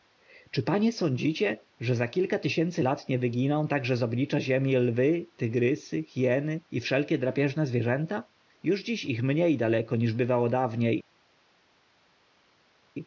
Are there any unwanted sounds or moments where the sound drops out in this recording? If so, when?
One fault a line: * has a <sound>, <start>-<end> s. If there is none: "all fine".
all fine